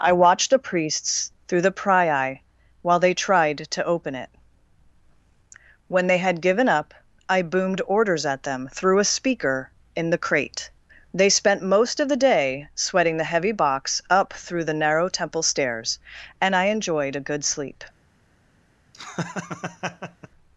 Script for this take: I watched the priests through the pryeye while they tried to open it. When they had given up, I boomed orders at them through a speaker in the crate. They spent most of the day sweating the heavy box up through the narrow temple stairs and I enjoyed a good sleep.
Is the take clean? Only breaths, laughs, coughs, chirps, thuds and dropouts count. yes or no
no